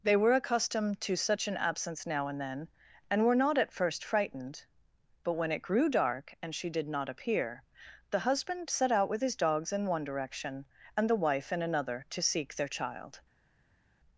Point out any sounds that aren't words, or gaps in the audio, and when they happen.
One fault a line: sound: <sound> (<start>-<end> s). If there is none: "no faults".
no faults